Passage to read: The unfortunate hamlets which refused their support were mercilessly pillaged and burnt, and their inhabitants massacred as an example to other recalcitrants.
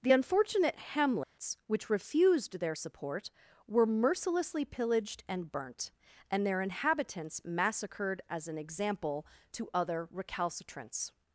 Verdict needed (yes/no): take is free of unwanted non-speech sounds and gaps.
no